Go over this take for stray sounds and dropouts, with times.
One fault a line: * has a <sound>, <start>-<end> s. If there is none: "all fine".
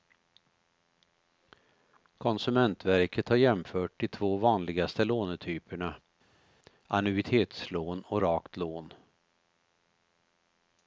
all fine